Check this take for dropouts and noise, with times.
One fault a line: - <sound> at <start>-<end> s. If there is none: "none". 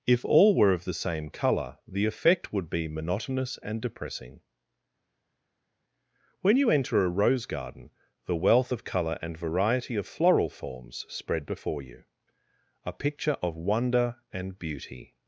none